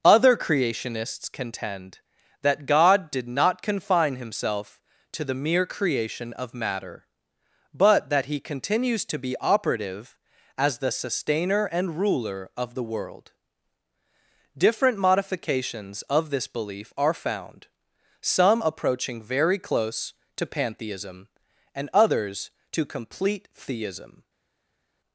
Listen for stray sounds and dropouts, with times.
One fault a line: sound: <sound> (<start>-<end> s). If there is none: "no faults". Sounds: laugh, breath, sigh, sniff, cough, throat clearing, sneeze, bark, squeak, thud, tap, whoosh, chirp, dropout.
no faults